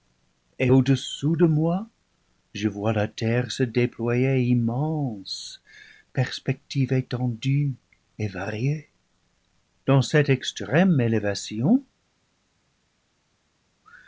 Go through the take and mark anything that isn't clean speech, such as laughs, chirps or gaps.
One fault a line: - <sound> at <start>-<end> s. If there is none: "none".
none